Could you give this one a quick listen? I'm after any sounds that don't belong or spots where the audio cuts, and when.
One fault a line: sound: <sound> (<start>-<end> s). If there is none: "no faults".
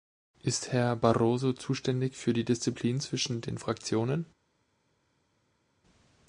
no faults